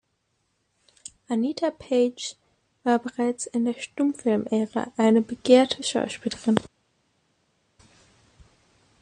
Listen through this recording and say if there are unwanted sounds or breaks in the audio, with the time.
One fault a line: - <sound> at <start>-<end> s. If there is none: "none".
none